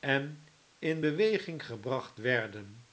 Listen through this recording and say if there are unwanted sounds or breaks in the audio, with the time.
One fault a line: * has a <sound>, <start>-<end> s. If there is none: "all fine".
all fine